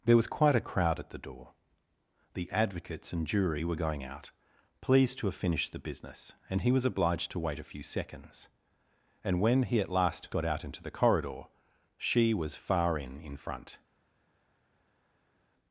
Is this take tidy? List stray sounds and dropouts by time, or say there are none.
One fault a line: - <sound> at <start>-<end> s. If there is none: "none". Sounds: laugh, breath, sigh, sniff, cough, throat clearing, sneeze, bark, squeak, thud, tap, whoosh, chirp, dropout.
none